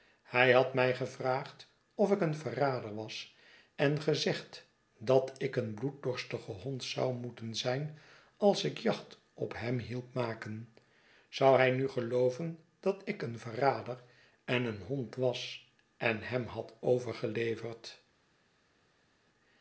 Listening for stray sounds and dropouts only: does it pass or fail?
pass